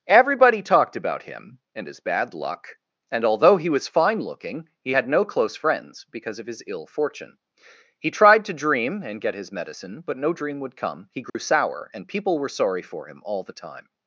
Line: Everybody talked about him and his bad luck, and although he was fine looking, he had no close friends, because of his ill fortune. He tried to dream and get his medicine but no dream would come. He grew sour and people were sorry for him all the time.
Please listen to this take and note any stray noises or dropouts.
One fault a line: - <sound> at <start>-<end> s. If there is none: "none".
- dropout at 11.3-11.3 s